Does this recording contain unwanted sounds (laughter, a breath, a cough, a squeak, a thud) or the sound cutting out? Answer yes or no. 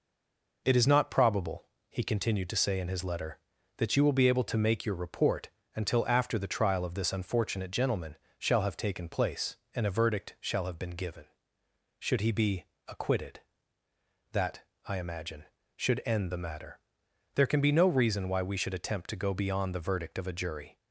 no